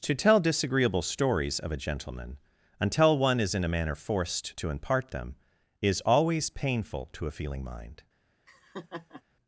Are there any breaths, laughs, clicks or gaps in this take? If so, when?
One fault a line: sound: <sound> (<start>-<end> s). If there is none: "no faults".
sound: laugh (8.5-9.2 s)